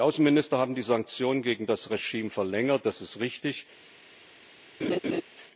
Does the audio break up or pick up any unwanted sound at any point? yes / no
yes